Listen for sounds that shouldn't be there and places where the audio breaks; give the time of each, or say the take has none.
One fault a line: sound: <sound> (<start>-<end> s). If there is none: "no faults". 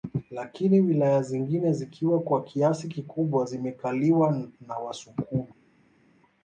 no faults